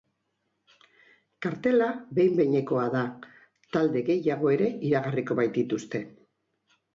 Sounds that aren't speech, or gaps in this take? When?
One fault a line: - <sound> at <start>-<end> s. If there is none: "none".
none